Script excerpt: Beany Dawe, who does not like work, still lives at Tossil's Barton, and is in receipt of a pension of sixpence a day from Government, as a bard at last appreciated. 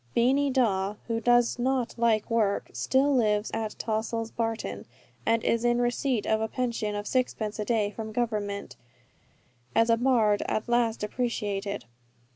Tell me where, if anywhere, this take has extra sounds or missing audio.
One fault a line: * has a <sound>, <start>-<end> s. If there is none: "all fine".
all fine